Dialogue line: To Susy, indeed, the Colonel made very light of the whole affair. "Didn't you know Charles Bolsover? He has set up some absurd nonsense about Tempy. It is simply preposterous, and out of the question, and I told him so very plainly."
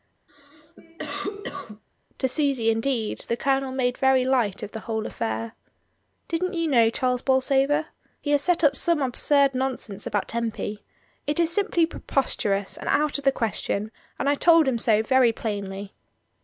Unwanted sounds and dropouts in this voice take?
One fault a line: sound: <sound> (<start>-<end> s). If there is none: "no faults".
sound: cough (0.3-1.8 s)